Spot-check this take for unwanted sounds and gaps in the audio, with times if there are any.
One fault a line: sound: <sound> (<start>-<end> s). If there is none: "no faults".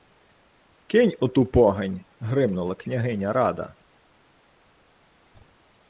no faults